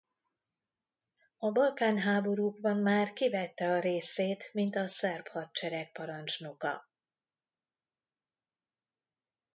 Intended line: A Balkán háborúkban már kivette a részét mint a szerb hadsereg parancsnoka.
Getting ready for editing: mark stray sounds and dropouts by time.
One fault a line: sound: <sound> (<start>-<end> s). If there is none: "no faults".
no faults